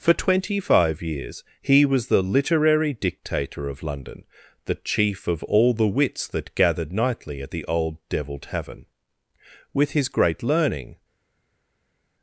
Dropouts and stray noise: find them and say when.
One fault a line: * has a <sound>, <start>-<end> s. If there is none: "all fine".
all fine